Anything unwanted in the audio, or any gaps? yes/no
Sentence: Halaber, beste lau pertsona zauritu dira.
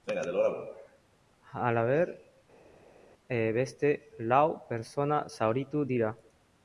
no